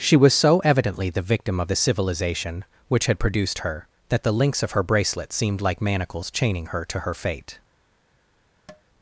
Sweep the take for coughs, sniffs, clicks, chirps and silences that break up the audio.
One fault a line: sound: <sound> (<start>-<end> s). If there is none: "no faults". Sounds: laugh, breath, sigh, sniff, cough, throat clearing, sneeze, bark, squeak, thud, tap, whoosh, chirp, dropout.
sound: tap (8.7-8.8 s)